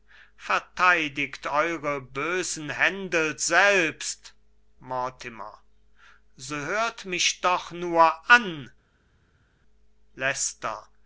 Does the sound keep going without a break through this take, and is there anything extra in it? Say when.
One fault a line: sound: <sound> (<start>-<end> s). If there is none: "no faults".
no faults